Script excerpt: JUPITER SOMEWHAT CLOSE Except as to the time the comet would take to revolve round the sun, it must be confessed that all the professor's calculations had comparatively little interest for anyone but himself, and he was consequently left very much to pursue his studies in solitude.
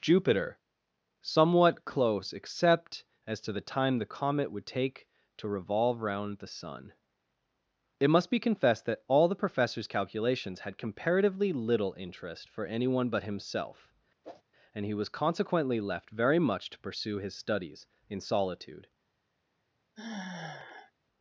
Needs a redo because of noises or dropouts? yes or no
yes